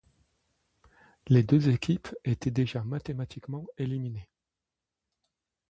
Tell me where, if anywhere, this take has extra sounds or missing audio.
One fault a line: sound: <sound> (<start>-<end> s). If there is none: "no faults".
no faults